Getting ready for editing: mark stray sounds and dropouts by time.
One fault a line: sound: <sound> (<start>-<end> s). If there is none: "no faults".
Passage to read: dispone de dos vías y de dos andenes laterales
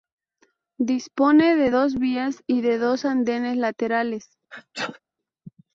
sound: sneeze (4.5-5.0 s)